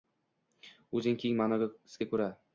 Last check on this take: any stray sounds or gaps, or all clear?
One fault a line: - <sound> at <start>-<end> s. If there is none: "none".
none